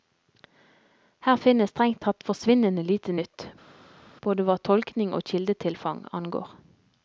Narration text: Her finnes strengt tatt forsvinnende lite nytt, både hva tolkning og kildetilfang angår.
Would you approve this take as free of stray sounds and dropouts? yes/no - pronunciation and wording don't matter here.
yes